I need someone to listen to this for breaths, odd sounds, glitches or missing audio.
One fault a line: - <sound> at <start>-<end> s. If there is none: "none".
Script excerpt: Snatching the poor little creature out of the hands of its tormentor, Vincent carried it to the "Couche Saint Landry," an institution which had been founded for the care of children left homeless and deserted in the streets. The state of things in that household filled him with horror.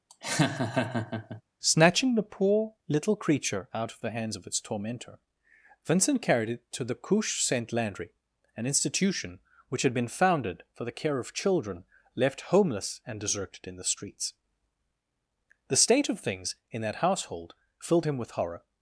- laugh at 0.1-1.4 s